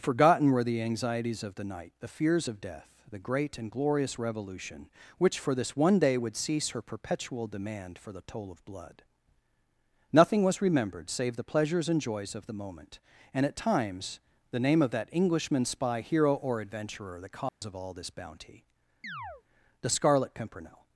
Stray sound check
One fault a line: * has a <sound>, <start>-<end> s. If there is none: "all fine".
* has a dropout, 17.5-17.6 s
* has a chirp, 19.0-19.4 s